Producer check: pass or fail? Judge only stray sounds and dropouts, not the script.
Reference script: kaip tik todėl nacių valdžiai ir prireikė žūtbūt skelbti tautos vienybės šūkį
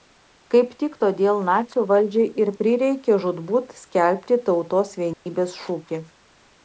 fail